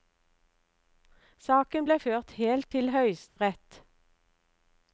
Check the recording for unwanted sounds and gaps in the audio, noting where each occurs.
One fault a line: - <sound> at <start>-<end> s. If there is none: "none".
- dropout at 3.3-3.4 s